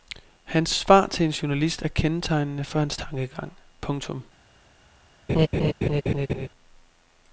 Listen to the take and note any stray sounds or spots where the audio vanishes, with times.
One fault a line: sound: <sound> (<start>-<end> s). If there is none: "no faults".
sound: laugh (5.3-6.5 s)